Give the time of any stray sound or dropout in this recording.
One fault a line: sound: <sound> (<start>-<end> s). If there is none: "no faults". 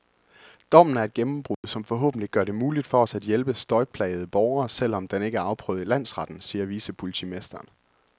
sound: dropout (1.5-1.6 s)